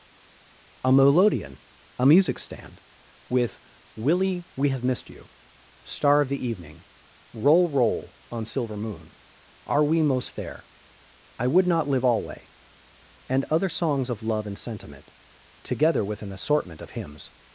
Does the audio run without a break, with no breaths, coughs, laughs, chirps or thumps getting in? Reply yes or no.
yes